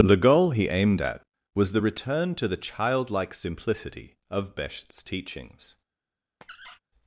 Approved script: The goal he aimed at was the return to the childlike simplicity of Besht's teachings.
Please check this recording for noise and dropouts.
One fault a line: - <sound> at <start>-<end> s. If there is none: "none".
- squeak at 6.4-6.8 s